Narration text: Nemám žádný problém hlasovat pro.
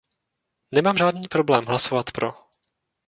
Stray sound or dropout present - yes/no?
no